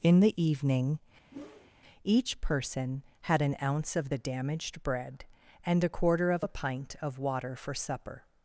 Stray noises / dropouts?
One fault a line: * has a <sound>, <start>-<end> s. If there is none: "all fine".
* has a whoosh, 1.3-1.7 s